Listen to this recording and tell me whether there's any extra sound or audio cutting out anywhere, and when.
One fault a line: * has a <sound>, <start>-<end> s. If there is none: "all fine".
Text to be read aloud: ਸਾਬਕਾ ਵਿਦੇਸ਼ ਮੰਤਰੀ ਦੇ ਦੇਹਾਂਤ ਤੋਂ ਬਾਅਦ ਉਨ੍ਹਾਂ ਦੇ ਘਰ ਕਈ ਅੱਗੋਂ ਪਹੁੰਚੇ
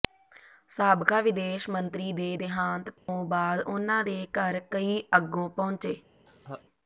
* has a dropout, 3.0-3.1 s
* has a laugh, 6.3-6.6 s